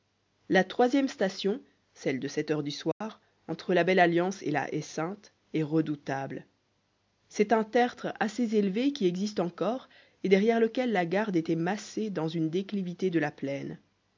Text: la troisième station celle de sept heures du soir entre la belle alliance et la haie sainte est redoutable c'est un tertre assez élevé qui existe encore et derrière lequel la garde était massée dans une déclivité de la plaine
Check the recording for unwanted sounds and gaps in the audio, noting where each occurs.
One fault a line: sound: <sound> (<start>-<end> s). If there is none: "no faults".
sound: dropout (2.9-3.0 s)